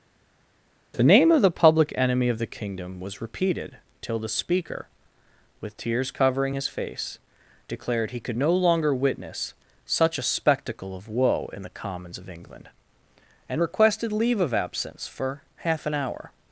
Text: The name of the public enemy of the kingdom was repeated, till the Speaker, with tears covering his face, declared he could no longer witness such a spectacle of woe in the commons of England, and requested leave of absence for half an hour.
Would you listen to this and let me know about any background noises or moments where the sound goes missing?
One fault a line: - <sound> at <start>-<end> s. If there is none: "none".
none